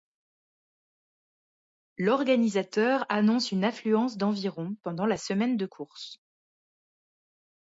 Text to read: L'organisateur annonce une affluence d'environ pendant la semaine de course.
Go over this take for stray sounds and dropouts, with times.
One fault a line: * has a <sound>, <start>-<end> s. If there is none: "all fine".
all fine